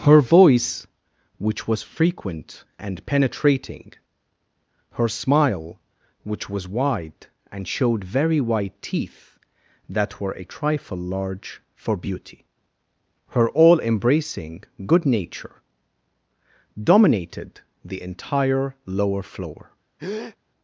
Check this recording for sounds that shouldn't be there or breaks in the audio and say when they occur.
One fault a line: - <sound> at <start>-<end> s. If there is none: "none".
- breath at 20.0-20.4 s